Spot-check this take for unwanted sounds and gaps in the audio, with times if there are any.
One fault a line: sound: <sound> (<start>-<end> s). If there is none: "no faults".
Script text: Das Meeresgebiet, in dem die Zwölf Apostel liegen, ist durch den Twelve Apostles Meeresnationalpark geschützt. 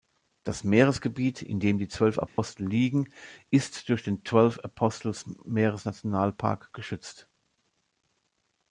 sound: dropout (2.3-2.4 s)